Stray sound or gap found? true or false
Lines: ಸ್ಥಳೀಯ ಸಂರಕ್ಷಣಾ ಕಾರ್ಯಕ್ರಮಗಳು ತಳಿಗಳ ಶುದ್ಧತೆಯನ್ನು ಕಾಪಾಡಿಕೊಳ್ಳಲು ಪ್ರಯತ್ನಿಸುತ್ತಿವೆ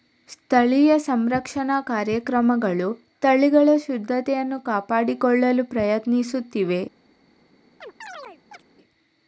true